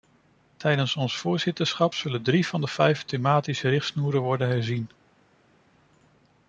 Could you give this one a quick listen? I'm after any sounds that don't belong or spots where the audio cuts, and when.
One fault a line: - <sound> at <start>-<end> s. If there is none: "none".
none